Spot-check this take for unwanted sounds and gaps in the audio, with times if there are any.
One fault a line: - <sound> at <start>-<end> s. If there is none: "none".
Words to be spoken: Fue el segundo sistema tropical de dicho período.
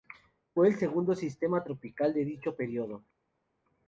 none